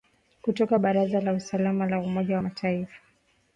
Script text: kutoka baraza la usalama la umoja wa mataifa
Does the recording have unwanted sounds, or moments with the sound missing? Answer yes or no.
no